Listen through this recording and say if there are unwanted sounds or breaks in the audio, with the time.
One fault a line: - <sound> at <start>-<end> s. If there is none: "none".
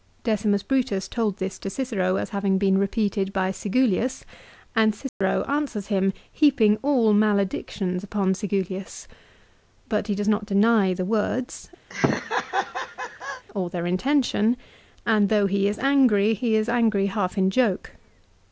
- dropout at 5.1-5.2 s
- laugh at 11.9-13.4 s